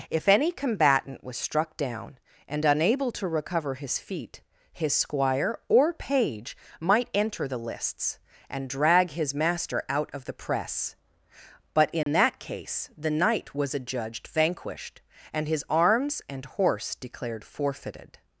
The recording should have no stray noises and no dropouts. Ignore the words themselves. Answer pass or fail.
fail